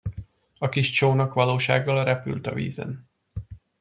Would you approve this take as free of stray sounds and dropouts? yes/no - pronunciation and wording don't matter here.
yes